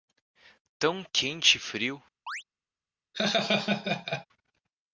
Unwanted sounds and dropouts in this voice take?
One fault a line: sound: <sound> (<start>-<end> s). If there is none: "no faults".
sound: chirp (2.3-2.4 s)
sound: laugh (3.1-4.3 s)